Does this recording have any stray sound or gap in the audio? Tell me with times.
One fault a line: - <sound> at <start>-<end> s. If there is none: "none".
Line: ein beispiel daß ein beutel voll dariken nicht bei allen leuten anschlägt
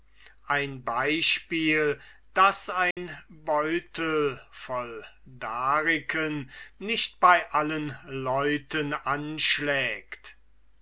- dropout at 2.9-3.0 s